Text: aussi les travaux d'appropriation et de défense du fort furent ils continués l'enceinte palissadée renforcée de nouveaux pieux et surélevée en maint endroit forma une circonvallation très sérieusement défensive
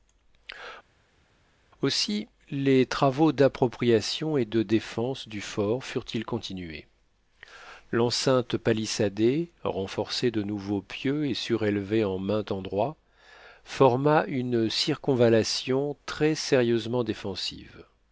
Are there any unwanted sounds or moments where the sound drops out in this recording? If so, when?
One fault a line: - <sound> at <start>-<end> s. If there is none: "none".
none